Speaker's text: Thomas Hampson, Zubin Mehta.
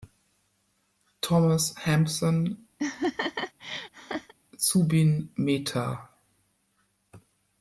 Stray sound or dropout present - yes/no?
yes